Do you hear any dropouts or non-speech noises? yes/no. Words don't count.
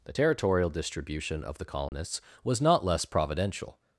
yes